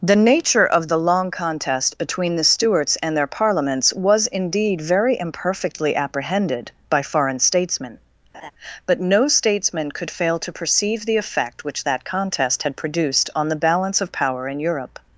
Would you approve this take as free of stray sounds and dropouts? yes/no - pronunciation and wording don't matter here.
no